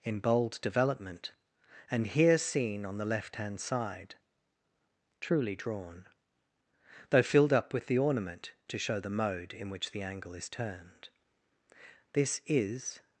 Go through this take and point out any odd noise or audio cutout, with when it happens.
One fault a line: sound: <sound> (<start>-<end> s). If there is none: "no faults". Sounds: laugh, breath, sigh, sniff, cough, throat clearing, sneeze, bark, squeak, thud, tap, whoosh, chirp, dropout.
no faults